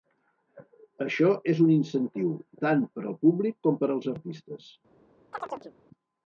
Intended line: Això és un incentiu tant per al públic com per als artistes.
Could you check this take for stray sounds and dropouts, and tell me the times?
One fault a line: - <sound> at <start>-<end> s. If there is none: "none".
- chirp at 5.3-5.7 s